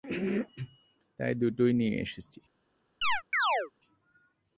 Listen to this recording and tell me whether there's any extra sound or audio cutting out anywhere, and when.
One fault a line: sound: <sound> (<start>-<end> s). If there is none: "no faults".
sound: chirp (3.0-3.7 s)